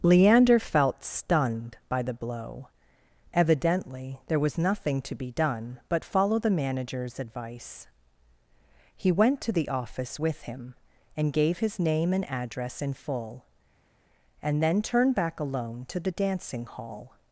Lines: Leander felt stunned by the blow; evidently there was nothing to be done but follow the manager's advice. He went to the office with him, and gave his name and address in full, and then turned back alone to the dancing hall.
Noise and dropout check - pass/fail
pass